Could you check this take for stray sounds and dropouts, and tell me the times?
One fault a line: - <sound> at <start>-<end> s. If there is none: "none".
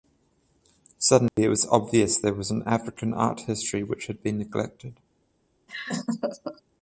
- dropout at 1.3-1.4 s
- laugh at 5.7-6.6 s